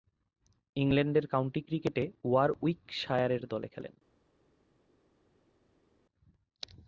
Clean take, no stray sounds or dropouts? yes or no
yes